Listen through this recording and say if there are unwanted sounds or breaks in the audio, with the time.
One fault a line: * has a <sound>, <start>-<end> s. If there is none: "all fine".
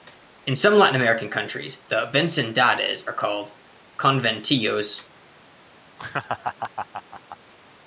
* has a laugh, 6.0-7.4 s